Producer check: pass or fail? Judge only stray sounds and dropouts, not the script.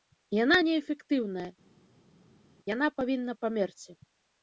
pass